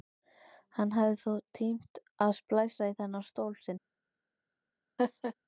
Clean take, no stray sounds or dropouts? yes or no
no